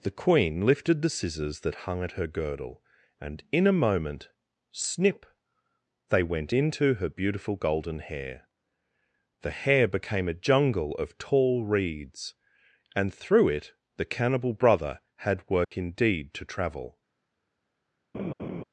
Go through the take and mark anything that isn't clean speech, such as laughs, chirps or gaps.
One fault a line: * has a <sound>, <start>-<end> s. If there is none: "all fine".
* has a dropout, 15.6-15.7 s
* has a laugh, 18.1-18.6 s